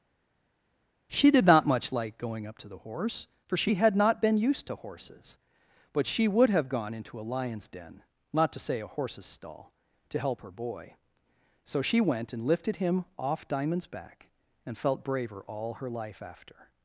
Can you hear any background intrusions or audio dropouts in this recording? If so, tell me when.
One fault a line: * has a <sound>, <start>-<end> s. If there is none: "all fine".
all fine